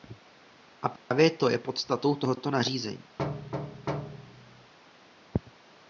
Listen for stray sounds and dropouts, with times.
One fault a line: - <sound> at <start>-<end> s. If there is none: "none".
- dropout at 1.0-1.1 s
- thud at 3.2-4.7 s